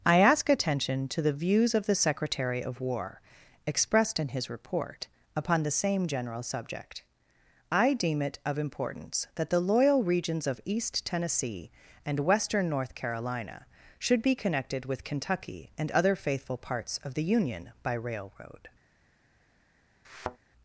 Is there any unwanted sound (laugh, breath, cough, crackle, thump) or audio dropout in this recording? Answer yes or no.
yes